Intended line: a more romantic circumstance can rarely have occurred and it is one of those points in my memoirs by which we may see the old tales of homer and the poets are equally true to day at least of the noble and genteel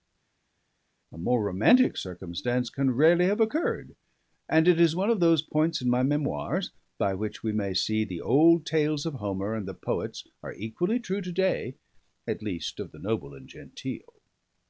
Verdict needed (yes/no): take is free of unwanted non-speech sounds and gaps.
yes